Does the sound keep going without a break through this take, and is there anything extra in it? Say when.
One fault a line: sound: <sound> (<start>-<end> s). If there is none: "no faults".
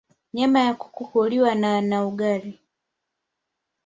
no faults